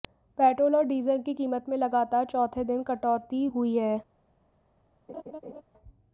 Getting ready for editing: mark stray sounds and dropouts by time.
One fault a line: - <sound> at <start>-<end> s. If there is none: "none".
- laugh at 5.1-5.6 s